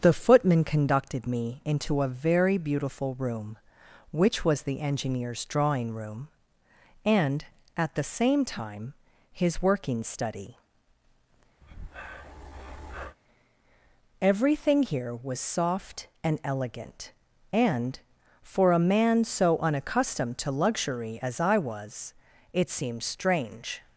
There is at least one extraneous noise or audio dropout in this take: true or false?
true